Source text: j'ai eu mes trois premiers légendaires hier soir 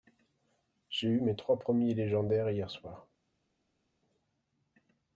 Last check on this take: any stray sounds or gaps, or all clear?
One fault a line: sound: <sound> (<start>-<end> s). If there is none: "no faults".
no faults